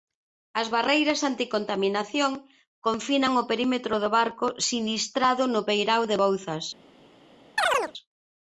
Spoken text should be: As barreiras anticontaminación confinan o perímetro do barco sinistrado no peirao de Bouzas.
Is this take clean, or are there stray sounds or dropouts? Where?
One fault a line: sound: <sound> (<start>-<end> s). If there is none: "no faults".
sound: chirp (7.6-7.9 s)